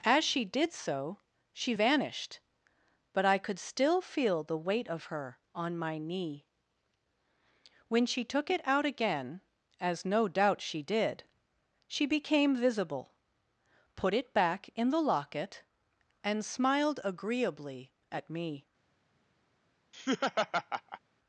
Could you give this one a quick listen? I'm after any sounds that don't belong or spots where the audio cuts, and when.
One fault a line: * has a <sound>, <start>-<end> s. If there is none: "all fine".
* has a laugh, 19.9-21.0 s